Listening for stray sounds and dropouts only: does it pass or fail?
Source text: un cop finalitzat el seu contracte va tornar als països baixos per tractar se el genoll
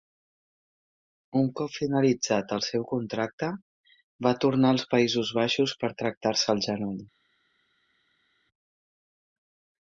pass